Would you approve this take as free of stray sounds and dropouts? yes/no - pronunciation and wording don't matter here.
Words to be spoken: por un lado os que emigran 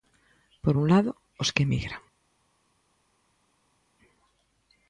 yes